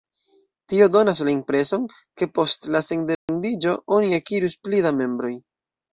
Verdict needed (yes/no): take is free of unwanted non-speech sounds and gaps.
no